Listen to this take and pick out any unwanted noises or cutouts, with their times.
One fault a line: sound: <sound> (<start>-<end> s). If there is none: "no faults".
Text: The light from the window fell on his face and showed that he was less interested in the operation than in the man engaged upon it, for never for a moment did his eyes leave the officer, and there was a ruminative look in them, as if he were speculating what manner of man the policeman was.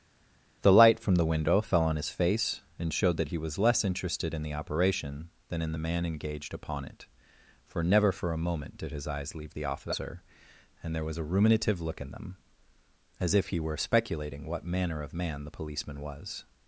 no faults